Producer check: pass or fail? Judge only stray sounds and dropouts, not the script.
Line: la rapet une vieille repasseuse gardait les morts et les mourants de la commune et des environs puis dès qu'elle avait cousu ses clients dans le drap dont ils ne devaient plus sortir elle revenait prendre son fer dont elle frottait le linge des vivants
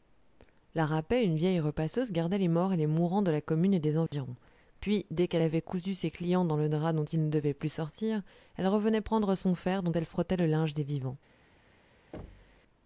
fail